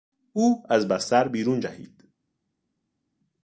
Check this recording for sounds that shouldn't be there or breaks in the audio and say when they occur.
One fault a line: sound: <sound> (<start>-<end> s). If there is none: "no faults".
no faults